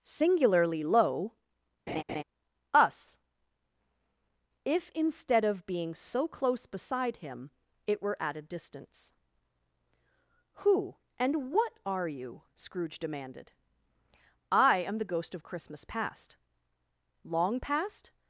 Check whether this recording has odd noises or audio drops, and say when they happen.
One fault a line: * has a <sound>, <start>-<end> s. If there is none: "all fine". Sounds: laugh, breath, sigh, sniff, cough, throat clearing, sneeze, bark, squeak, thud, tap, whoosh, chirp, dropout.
* has a laugh, 1.9-2.2 s